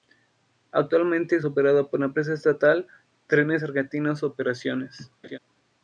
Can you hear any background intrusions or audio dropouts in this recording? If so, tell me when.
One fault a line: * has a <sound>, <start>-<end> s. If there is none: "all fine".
* has a laugh, 5.2-5.4 s